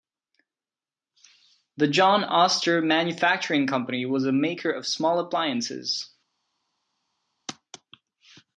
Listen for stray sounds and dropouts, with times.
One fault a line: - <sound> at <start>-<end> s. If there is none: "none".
none